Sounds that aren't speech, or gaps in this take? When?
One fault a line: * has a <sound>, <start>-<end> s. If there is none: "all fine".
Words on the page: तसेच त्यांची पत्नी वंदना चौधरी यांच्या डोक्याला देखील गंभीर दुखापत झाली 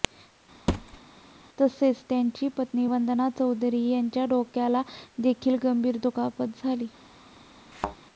* has a thud, 0.7-1.0 s
* has a thud, 7.7-8.0 s